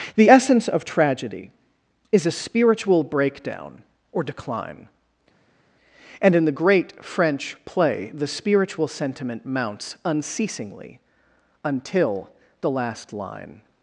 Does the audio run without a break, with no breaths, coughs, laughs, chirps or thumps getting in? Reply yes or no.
yes